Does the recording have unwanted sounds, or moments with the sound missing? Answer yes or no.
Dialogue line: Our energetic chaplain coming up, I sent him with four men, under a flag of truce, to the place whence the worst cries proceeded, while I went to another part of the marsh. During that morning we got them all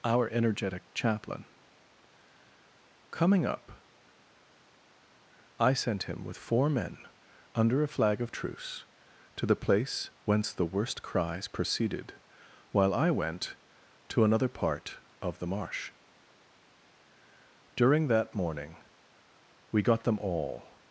no